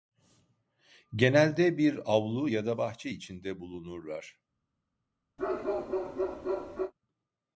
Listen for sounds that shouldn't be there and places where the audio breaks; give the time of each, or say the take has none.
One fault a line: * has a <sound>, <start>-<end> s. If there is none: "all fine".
* has a bark, 5.4-6.9 s